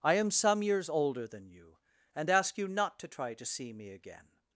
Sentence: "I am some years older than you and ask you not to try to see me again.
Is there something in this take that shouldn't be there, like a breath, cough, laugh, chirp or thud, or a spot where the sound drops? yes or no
no